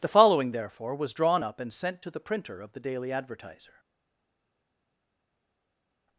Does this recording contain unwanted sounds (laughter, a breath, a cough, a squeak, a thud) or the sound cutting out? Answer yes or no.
no